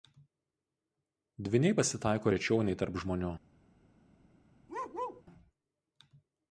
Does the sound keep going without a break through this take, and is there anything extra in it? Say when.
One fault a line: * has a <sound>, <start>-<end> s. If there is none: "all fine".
* has a bark, 4.7-5.2 s